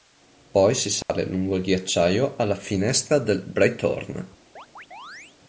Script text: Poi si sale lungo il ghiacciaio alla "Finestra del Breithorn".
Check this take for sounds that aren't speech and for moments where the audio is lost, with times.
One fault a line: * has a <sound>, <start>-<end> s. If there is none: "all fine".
* has a dropout, 1.0-1.1 s
* has a chirp, 4.6-5.4 s